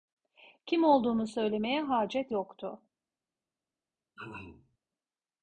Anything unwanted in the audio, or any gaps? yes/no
yes